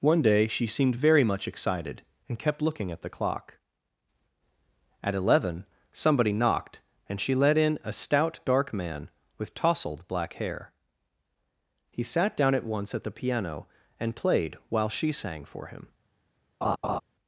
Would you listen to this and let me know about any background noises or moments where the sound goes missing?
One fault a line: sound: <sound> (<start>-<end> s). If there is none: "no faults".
sound: laugh (16.6-17.0 s)